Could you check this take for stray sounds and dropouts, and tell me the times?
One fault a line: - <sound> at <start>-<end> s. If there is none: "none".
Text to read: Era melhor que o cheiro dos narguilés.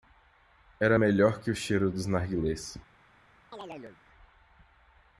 - chirp at 3.5-4.0 s